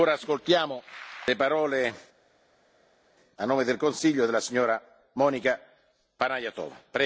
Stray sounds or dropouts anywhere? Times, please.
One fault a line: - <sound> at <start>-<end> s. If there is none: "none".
none